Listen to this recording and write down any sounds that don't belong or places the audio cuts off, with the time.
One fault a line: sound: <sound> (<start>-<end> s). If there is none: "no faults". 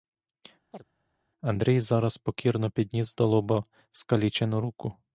sound: chirp (0.7-0.8 s)